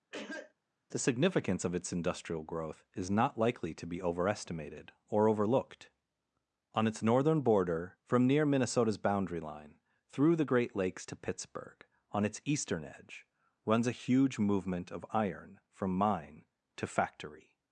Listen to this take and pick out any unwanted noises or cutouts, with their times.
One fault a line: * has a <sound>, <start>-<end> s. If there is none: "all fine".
* has a cough, 0.1-0.5 s